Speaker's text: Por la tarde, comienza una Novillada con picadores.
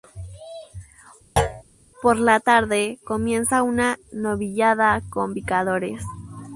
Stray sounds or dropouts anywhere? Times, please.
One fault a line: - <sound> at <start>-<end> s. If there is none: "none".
- thud at 1.4-1.6 s